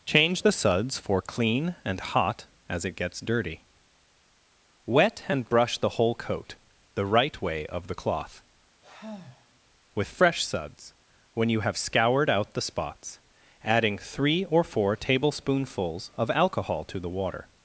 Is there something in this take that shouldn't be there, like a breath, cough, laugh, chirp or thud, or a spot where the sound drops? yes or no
yes